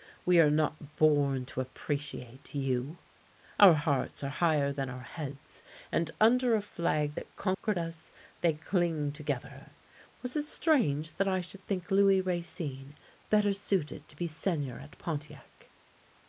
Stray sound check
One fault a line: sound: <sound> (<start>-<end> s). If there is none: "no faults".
sound: dropout (7.5-7.6 s)